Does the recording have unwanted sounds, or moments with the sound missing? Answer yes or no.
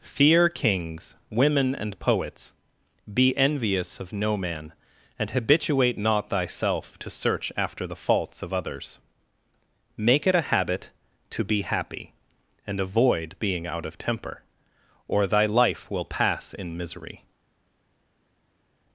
no